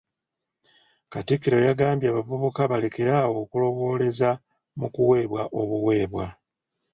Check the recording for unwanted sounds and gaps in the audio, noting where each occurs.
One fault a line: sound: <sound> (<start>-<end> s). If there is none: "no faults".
no faults